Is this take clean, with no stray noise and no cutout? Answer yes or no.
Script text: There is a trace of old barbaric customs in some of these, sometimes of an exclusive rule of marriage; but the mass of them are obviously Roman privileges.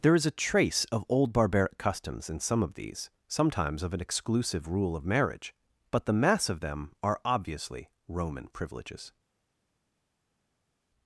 yes